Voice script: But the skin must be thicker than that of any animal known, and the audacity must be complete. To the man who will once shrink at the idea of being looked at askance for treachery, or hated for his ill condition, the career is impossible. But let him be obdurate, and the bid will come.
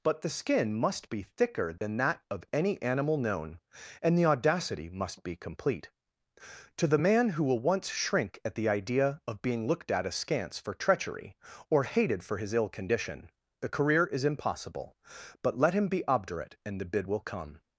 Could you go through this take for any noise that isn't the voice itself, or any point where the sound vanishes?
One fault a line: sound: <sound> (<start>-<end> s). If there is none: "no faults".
sound: dropout (1.8-1.8 s)